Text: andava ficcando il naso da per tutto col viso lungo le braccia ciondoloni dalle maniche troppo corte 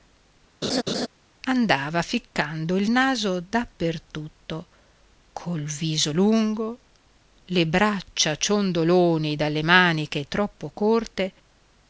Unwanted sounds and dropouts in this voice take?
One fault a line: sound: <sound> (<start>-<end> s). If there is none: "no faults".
sound: laugh (0.6-1.1 s)